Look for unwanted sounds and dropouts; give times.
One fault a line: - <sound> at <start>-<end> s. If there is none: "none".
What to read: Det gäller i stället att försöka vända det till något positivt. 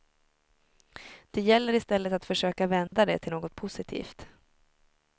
- dropout at 2.9-2.9 s